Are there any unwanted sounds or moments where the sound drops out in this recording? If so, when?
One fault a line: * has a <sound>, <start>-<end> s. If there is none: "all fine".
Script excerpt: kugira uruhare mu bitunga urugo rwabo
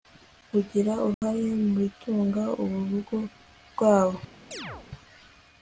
* has a dropout, 1.1-1.2 s
* has a chirp, 4.5-4.9 s